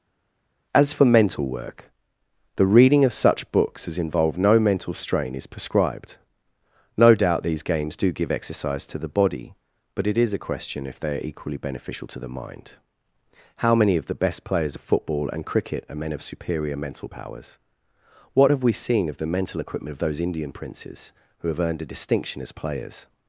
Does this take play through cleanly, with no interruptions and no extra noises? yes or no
yes